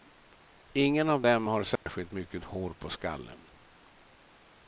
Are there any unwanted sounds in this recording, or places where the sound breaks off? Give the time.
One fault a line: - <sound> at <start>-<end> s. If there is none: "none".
- dropout at 1.8-1.9 s